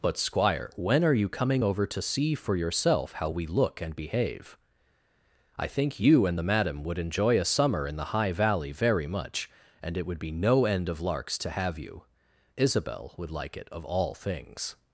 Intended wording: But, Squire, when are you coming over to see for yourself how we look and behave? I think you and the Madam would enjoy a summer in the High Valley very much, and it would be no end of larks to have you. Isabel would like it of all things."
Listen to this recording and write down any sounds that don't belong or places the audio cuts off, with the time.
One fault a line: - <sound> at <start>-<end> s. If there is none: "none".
none